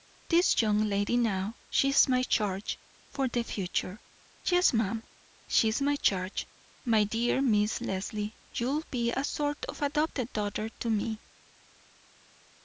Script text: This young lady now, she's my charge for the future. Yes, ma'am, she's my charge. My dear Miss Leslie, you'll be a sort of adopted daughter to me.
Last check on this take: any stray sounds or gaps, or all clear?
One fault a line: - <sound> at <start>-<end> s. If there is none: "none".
none